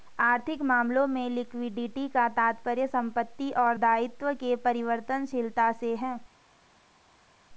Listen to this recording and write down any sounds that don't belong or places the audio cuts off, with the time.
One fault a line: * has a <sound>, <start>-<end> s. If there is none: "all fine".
all fine